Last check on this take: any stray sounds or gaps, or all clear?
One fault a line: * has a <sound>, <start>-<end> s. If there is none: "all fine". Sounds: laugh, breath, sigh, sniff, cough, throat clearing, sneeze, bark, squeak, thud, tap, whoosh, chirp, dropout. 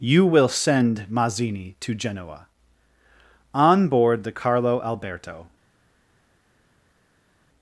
all fine